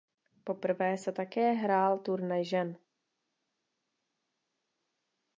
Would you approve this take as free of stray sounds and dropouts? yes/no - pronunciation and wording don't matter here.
yes